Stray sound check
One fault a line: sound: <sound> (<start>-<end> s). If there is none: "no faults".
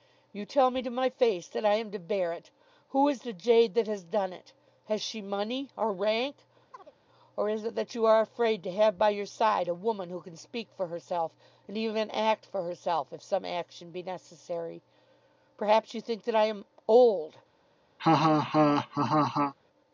sound: chirp (6.7-6.9 s)
sound: laugh (18.0-19.5 s)